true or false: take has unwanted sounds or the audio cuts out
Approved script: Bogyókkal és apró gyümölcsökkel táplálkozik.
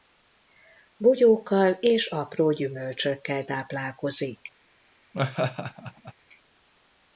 true